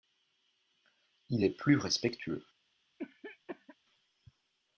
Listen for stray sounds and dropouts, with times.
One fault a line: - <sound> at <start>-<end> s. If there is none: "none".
- cough at 3.0-3.8 s